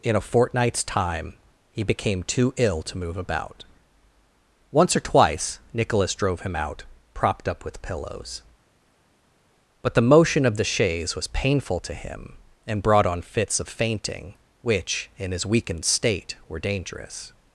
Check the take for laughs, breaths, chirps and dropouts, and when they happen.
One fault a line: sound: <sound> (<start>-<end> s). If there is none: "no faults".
no faults